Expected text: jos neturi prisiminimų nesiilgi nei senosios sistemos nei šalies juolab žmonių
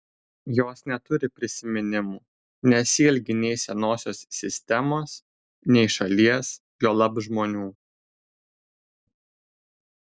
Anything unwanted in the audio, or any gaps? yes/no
no